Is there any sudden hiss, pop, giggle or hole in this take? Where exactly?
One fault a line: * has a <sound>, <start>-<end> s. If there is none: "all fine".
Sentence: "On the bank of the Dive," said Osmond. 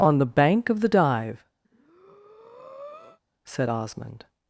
* has a breath, 1.6-3.2 s